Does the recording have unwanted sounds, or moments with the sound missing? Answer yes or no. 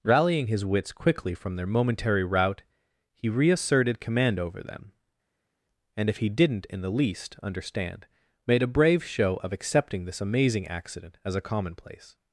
no